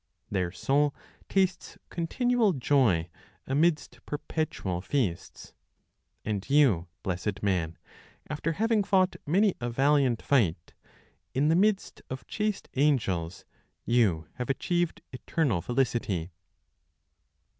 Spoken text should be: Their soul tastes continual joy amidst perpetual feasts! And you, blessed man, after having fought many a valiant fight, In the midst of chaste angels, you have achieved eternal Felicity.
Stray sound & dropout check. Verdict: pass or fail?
pass